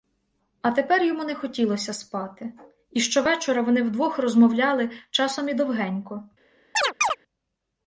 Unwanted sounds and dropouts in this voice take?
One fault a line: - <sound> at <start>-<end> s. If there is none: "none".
- chirp at 6.7-7.2 s